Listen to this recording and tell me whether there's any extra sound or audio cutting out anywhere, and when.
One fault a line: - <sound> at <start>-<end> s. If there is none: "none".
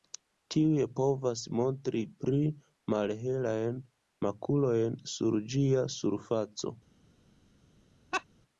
- laugh at 8.1-8.2 s